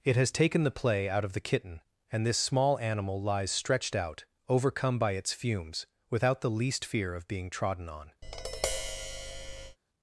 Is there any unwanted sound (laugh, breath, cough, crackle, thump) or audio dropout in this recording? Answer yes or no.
yes